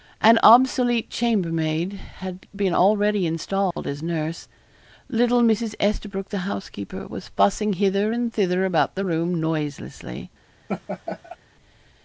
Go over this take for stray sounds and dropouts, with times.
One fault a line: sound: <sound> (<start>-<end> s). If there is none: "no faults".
sound: dropout (3.7-3.8 s)
sound: laugh (10.7-11.4 s)